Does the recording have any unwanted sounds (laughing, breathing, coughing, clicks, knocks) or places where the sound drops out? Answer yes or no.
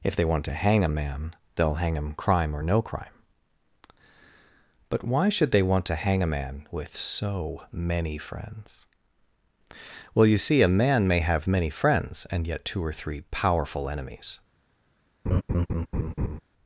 yes